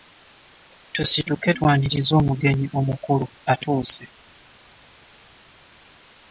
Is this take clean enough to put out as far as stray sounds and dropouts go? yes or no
yes